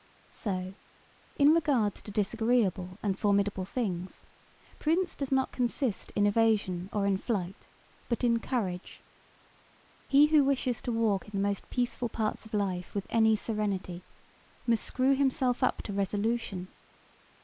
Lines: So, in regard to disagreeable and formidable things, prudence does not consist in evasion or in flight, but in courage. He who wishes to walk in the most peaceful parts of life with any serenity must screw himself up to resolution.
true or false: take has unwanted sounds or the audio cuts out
false